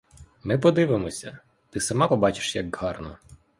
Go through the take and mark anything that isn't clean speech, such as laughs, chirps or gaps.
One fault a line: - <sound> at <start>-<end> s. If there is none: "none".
none